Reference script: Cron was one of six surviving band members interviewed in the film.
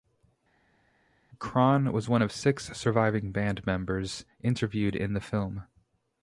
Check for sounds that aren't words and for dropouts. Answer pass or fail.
pass